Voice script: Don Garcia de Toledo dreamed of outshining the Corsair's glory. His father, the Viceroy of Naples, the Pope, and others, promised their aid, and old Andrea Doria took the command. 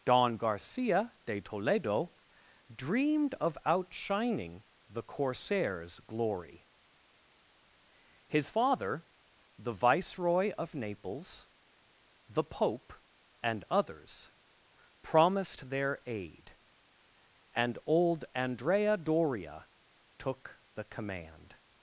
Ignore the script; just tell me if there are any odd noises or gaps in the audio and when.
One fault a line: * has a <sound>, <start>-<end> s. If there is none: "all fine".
all fine